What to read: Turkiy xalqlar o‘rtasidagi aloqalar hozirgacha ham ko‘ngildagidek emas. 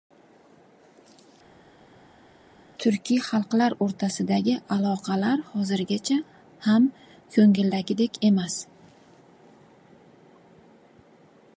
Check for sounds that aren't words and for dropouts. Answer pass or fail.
pass